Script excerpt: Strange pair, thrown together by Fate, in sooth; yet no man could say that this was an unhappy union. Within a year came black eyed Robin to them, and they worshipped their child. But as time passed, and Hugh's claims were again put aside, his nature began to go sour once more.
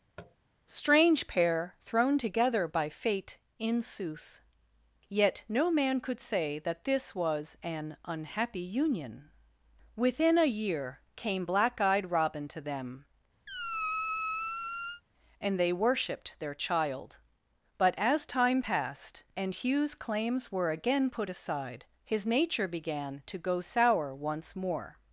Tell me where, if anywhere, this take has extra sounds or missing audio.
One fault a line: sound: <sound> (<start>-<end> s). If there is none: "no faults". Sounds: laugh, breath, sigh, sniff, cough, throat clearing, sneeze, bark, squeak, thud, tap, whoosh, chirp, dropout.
sound: tap (0.2-0.4 s)
sound: squeak (13.5-15.0 s)